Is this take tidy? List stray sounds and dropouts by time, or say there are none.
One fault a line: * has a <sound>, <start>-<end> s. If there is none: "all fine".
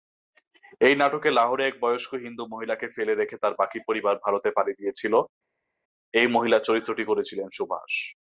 all fine